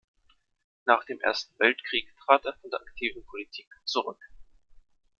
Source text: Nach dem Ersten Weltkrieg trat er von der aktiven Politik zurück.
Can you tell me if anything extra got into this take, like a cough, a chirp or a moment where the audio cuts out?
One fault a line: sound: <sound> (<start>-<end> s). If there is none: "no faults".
no faults